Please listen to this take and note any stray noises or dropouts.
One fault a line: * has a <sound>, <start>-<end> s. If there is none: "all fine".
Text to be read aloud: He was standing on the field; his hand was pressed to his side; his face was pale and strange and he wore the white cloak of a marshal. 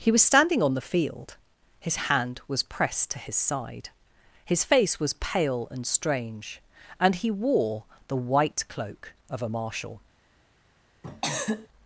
* has a cough, 11.0-11.7 s